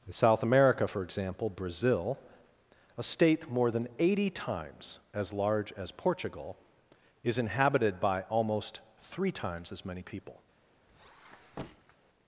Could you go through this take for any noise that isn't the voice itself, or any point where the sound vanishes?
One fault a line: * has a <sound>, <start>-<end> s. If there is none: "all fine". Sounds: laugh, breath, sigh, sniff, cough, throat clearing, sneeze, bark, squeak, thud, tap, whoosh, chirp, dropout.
* has a squeak, 10.9-12.0 s